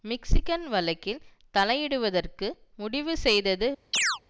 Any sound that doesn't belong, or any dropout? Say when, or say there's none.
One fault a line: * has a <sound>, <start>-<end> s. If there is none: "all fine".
* has a chirp, 3.9-4.2 s